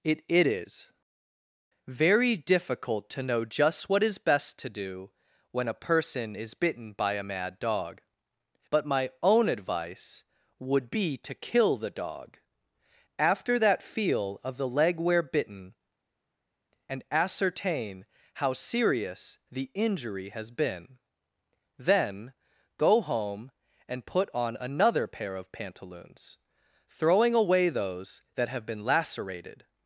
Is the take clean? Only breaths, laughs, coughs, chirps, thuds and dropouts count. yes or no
yes